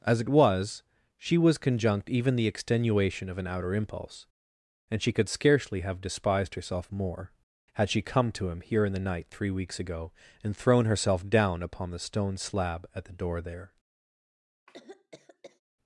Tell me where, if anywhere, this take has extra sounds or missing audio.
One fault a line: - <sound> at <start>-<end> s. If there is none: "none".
- cough at 14.7-15.6 s